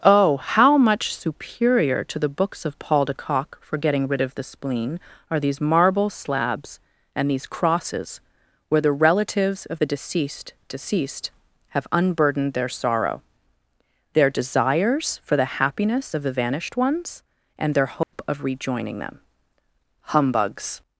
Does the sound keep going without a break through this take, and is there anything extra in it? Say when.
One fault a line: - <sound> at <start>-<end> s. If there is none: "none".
- dropout at 18.0-18.1 s